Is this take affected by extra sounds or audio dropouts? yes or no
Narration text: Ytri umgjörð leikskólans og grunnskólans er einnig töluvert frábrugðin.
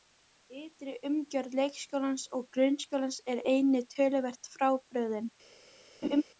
yes